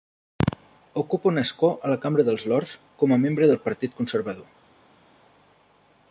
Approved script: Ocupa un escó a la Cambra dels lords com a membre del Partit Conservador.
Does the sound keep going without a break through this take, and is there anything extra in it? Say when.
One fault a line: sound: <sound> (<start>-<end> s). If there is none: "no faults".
no faults